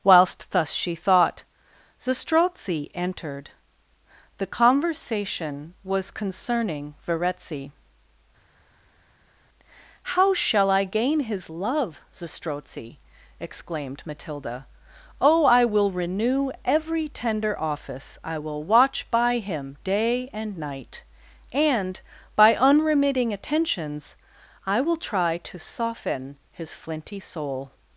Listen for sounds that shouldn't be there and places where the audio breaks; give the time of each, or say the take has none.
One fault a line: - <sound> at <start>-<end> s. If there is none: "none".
none